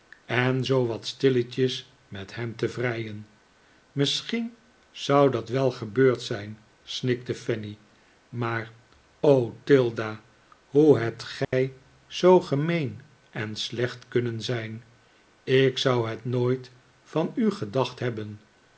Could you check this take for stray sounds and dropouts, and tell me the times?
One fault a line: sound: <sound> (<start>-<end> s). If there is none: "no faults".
sound: dropout (11.4-11.5 s)